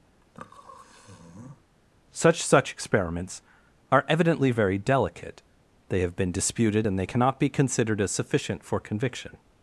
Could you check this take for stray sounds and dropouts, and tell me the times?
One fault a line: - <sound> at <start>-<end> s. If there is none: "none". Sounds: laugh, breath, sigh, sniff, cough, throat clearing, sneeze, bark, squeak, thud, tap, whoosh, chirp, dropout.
- sniff at 0.2-1.6 s